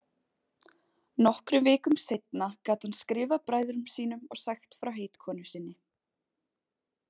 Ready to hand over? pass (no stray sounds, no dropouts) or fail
pass